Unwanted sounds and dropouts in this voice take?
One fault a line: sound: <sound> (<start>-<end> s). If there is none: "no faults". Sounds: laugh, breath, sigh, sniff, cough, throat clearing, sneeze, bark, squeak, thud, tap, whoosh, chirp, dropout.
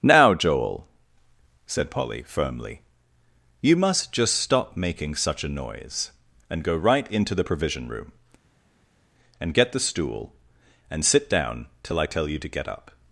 no faults